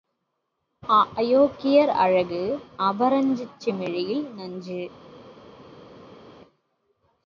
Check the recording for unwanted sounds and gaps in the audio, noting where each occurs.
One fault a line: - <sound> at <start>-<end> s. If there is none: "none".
none